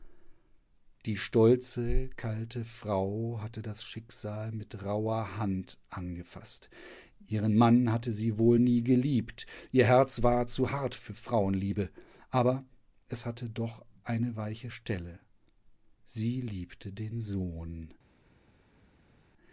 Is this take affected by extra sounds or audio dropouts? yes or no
no